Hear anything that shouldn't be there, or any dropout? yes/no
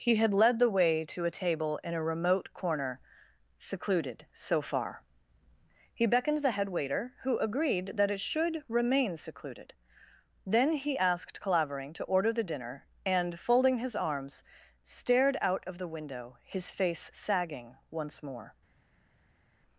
no